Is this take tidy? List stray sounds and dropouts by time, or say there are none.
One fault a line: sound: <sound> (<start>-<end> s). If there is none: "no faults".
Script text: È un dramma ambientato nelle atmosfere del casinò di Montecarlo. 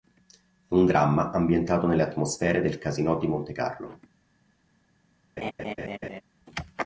sound: laugh (5.4-6.2 s)